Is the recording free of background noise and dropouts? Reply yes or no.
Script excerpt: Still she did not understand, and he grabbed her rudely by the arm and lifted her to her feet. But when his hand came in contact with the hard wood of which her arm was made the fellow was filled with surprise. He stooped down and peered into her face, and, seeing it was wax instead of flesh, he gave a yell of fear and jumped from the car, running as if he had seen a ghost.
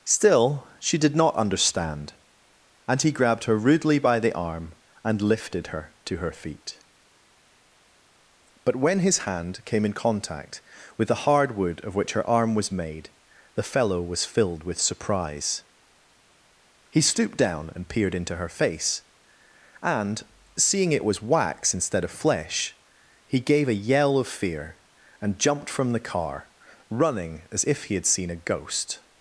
yes